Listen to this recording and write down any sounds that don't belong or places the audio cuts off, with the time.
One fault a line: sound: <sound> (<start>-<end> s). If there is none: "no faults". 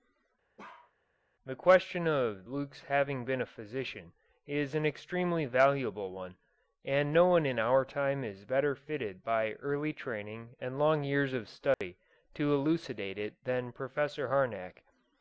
sound: bark (0.6-0.9 s)
sound: dropout (11.7-11.8 s)